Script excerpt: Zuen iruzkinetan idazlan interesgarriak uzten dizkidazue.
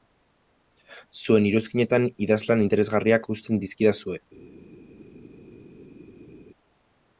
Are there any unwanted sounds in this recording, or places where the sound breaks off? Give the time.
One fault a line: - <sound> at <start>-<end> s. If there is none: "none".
none